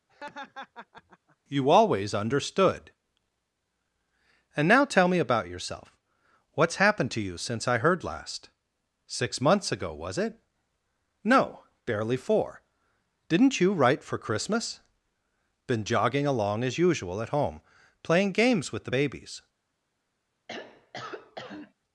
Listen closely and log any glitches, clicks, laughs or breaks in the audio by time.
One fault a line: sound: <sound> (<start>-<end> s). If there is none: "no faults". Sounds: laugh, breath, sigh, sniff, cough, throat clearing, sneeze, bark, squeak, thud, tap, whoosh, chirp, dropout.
sound: laugh (0.1-1.4 s)
sound: throat clearing (20.5-21.7 s)